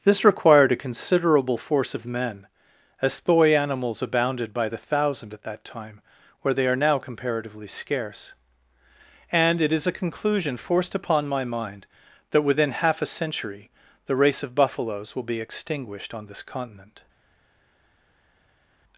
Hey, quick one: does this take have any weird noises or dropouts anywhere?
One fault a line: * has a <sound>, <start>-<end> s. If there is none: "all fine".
all fine